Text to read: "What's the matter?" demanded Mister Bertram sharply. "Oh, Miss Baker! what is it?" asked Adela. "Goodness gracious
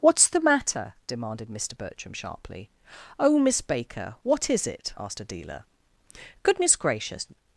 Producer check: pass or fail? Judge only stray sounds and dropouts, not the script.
pass